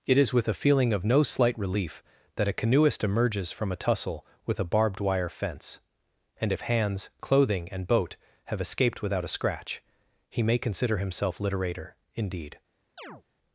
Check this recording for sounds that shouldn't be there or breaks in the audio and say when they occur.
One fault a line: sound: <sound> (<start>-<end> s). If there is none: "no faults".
sound: chirp (13.0-13.2 s)